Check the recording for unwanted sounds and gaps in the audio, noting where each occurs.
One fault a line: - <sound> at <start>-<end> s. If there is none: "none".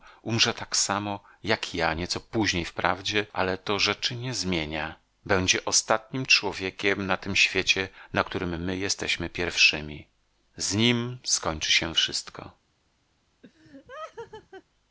- laugh at 13.4-14.6 s